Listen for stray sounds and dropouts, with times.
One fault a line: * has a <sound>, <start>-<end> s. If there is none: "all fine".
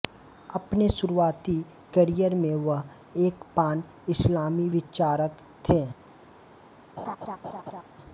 * has a laugh, 7.0-7.8 s